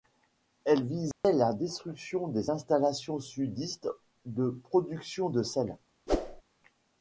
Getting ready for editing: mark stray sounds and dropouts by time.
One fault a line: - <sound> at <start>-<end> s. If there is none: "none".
- dropout at 1.1-1.2 s
- whoosh at 6.1-6.4 s